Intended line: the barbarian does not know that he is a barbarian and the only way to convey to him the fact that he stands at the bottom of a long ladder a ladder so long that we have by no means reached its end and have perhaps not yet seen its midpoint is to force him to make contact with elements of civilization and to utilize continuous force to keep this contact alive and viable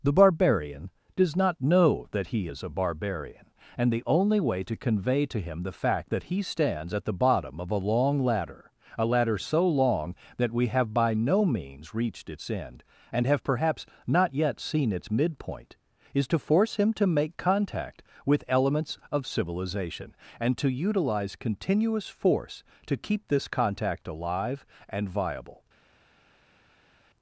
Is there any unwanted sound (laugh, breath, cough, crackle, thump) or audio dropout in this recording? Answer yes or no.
no